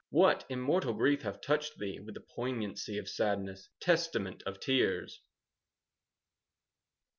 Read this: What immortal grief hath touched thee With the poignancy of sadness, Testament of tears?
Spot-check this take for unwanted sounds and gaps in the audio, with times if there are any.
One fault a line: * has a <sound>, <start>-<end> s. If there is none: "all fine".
all fine